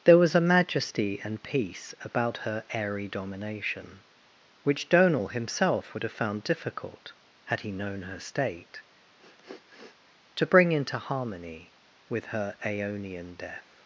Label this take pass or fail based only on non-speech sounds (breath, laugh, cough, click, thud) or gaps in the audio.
fail